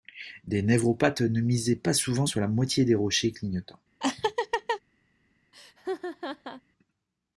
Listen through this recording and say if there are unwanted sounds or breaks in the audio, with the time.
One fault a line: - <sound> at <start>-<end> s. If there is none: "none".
- laugh at 4.0-4.8 s
- laugh at 5.5-6.6 s